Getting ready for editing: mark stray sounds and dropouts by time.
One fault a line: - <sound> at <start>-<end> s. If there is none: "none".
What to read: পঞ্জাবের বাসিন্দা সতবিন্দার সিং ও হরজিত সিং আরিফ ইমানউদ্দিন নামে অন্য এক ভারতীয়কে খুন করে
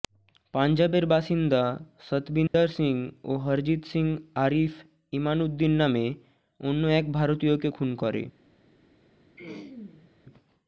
- dropout at 2.5-2.5 s
- throat clearing at 9.4-10.1 s